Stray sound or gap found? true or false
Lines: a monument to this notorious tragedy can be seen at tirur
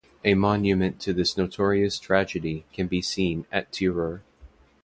false